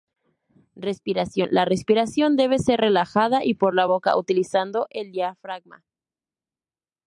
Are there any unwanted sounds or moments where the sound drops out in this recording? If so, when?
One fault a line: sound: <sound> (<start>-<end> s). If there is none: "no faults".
no faults